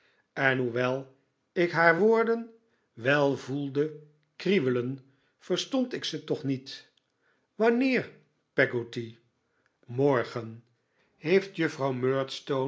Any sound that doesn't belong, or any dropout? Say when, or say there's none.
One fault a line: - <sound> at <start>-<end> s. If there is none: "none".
none